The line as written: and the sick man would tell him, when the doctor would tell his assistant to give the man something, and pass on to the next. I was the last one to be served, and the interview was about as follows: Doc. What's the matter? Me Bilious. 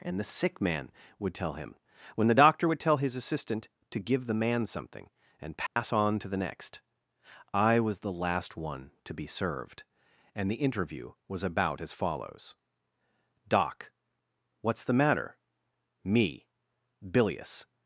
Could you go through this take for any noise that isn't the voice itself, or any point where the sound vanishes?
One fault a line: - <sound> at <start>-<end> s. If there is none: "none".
- dropout at 5.7-5.8 s